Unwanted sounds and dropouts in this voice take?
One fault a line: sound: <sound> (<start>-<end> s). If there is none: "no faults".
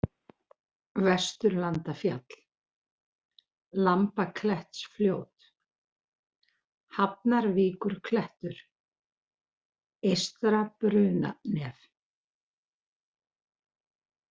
no faults